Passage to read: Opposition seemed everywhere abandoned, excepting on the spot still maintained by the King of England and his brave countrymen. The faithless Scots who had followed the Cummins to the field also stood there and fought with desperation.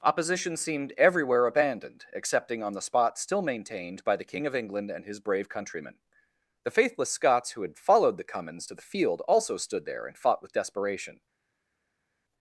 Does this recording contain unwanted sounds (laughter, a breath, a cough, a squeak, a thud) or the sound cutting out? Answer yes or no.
no